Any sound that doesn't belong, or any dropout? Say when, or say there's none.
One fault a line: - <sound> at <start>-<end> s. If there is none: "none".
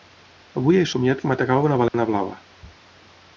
- dropout at 1.9-1.9 s